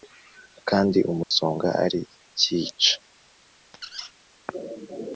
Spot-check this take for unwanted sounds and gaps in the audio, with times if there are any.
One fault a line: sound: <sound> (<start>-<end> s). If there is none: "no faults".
sound: dropout (1.2-1.3 s)
sound: squeak (3.7-4.1 s)